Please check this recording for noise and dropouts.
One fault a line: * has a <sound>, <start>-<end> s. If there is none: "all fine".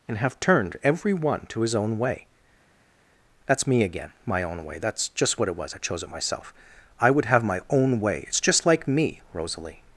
all fine